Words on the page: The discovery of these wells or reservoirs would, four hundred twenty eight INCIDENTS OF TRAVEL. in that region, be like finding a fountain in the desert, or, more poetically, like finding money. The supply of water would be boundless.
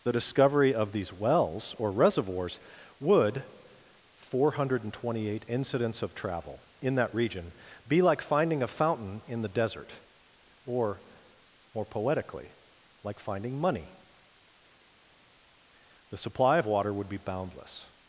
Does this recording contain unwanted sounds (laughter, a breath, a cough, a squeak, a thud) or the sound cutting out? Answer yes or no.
no